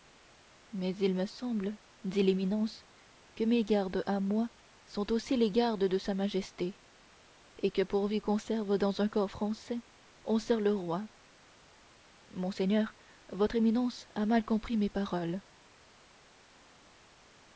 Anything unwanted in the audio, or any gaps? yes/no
no